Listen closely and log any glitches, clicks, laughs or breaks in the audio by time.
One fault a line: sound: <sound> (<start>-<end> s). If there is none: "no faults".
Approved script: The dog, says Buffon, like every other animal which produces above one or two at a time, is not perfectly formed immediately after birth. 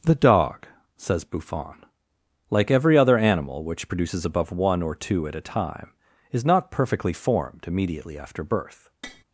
sound: tap (9.0-9.2 s)